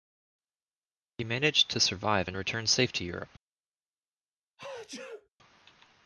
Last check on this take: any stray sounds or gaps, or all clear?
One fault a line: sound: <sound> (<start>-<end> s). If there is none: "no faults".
sound: sneeze (4.6-5.3 s)